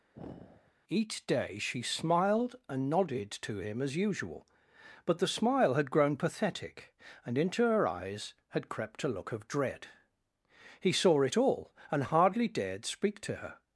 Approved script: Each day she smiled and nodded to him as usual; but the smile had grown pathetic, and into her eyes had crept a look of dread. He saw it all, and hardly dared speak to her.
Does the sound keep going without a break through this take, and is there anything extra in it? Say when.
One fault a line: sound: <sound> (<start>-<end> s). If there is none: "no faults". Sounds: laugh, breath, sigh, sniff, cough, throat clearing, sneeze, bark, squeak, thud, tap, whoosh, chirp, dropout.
sound: sigh (0.1-0.7 s)